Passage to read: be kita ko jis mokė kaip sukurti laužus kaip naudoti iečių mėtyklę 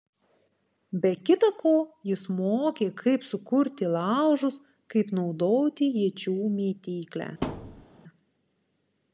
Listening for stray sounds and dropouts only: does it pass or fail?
fail